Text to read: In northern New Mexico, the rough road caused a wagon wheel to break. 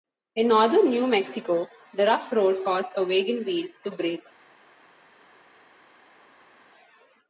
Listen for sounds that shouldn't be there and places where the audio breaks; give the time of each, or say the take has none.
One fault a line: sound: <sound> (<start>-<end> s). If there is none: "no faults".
no faults